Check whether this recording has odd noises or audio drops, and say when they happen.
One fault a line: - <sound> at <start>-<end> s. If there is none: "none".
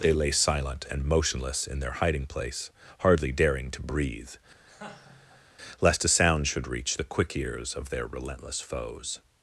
- laugh at 4.6-5.4 s